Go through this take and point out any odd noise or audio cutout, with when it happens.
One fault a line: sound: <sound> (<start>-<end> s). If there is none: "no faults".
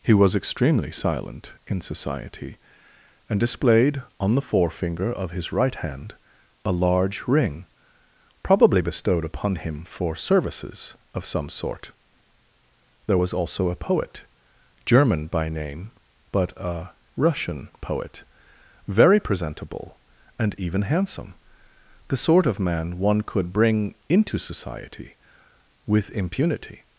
no faults